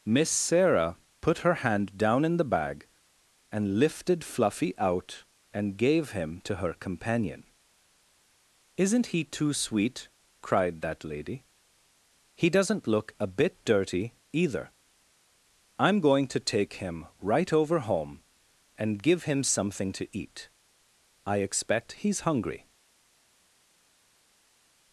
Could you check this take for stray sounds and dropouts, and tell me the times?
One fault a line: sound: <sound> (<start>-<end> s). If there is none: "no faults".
no faults